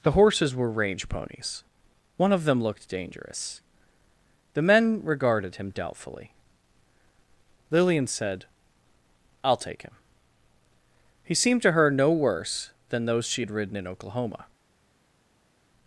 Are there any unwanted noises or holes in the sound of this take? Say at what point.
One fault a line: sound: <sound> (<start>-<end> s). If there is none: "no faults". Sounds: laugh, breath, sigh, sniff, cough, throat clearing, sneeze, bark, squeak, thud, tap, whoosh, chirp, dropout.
no faults